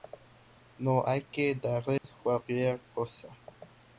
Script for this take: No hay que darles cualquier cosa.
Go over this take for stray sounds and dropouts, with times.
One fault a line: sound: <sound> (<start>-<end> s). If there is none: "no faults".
sound: dropout (2.0-2.0 s)